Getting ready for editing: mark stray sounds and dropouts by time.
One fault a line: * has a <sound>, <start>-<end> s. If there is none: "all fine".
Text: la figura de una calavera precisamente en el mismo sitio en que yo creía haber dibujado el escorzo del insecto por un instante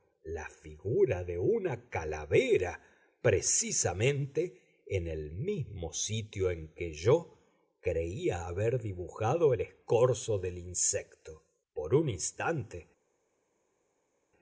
all fine